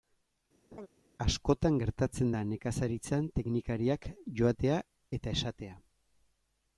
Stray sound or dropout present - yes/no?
yes